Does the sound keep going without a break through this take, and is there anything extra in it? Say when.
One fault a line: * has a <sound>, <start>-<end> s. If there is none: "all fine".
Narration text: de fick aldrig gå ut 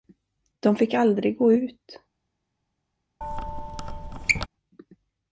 * has a squeak, 3.2-4.5 s